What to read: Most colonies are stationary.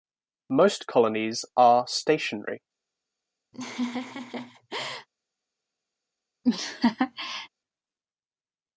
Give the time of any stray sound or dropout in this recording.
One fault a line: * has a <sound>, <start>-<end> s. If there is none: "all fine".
* has a laugh, 3.5-5.1 s
* has a laugh, 6.4-7.5 s